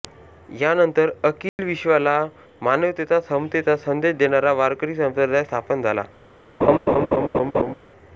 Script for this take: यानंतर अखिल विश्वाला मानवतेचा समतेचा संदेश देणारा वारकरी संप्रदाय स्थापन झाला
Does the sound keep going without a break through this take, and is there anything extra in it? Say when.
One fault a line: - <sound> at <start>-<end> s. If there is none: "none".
- dropout at 1.5-1.6 s
- laugh at 6.6-7.7 s